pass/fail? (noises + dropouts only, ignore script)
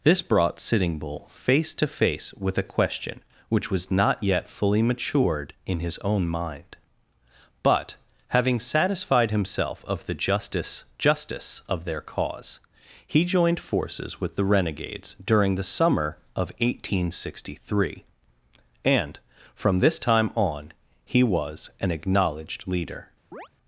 fail